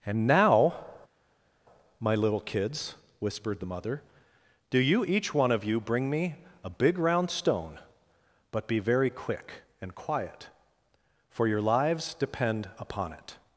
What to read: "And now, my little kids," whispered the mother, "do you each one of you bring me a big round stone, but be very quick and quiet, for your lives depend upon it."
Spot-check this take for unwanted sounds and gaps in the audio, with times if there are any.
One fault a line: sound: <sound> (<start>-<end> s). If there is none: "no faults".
no faults